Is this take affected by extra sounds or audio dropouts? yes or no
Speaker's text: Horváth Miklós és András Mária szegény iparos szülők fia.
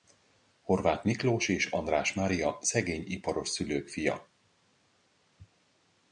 no